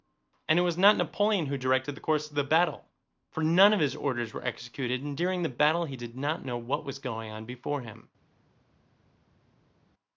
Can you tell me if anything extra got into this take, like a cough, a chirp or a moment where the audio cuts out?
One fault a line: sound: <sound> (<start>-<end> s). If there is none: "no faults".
no faults